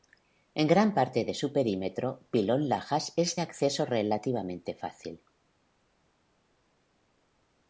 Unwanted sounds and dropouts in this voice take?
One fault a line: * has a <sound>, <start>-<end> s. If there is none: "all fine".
all fine